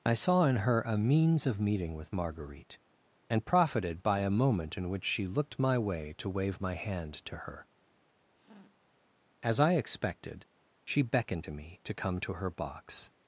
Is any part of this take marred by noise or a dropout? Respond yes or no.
yes